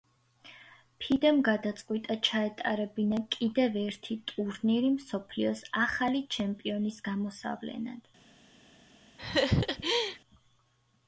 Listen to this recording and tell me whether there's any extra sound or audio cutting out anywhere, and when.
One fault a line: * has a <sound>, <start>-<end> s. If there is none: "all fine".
* has a laugh, 9.2-10.2 s